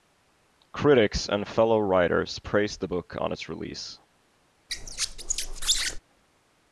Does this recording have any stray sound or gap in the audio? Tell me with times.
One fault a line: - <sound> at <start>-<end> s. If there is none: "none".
- squeak at 4.7-6.0 s